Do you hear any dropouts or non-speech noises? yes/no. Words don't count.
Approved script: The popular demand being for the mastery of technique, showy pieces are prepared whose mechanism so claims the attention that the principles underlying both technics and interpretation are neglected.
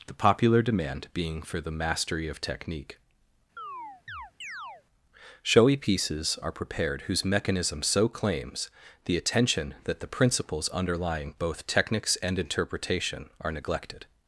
yes